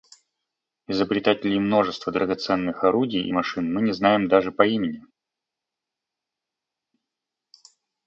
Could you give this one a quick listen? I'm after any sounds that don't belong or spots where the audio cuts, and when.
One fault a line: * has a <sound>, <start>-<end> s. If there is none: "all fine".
all fine